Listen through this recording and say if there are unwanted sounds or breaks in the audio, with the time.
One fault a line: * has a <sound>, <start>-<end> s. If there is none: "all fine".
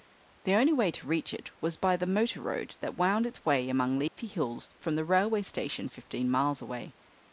* has a dropout, 4.1-4.2 s